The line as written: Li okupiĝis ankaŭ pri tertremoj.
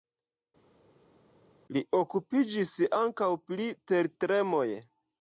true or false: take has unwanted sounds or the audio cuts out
false